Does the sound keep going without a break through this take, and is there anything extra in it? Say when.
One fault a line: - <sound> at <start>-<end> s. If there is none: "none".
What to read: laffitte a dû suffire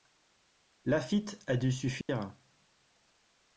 - dropout at 2.0-2.1 s